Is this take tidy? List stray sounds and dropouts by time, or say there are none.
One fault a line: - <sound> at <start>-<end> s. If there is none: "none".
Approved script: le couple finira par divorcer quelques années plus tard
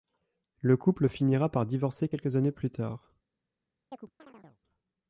- chirp at 3.9-4.6 s